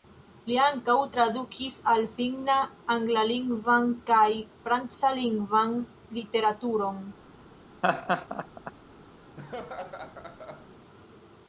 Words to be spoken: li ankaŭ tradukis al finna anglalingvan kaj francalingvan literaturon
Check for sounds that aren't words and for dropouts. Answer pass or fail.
fail